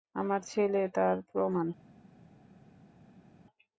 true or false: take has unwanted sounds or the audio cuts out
false